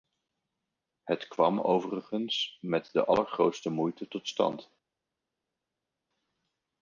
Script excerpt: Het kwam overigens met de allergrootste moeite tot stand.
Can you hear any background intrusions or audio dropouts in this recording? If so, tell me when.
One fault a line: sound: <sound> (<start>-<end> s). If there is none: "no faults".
no faults